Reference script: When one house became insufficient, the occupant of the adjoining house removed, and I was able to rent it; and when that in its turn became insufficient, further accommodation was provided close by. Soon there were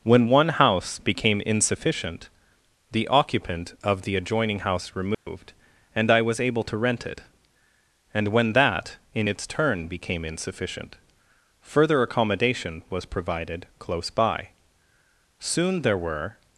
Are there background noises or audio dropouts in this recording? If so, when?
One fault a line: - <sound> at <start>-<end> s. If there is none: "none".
- dropout at 5.1-5.3 s